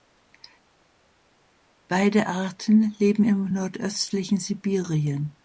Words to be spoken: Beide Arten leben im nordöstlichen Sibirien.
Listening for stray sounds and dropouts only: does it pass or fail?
pass